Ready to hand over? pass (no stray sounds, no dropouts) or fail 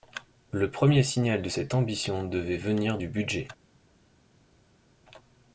pass